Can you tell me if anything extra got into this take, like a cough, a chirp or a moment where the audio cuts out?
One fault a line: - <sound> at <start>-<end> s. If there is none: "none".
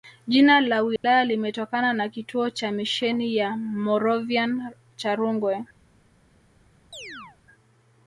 - dropout at 1.0-1.0 s
- chirp at 6.9-7.4 s